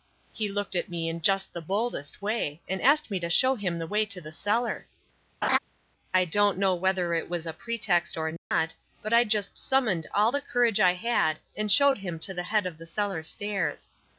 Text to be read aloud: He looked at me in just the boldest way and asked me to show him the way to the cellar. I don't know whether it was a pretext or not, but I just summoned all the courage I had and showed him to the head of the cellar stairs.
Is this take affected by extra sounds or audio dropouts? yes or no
yes